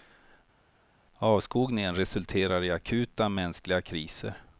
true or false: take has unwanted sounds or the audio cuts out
false